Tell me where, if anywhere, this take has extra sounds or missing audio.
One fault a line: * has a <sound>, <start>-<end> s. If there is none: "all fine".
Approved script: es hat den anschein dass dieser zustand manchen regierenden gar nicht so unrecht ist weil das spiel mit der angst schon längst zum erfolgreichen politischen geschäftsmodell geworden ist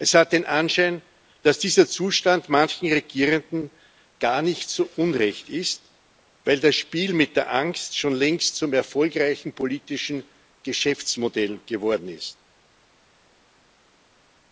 all fine